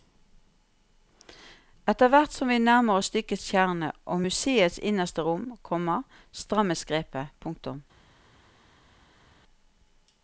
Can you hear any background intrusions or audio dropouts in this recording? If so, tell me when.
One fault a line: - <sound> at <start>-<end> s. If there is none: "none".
none